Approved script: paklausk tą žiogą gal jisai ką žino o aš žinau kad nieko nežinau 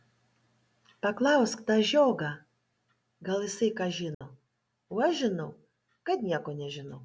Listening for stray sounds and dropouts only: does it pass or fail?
fail